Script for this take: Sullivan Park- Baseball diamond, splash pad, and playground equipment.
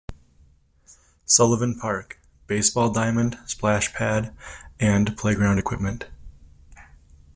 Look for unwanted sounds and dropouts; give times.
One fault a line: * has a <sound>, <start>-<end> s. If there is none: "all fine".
all fine